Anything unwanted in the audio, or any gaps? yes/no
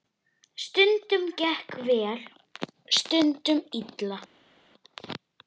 no